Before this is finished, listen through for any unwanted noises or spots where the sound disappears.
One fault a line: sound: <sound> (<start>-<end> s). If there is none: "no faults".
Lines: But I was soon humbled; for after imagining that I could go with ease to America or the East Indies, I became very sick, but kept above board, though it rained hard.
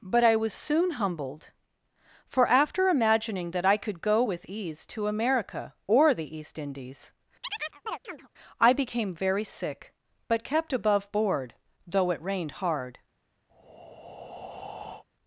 sound: chirp (7.4-8.3 s)
sound: breath (13.5-15.0 s)